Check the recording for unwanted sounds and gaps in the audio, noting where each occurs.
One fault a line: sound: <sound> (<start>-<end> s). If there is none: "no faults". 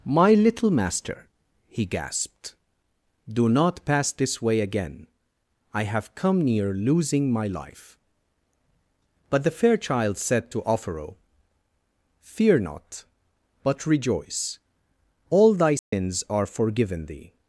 sound: dropout (15.8-15.9 s)